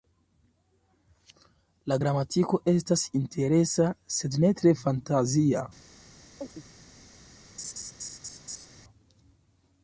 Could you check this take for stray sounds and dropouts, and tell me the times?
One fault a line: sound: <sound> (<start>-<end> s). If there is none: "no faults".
sound: chirp (6.4-6.6 s)
sound: laugh (7.6-8.7 s)